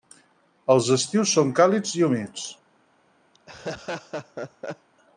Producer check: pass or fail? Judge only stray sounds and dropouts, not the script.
fail